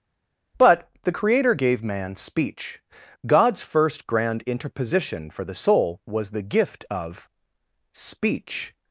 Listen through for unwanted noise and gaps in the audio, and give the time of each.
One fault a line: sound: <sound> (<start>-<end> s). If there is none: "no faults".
no faults